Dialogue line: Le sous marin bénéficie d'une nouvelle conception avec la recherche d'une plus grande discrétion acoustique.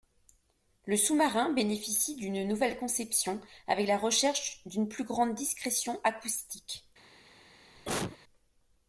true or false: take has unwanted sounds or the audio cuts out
true